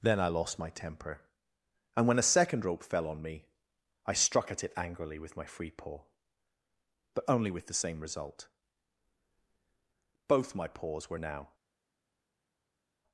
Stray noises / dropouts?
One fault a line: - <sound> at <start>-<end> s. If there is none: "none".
none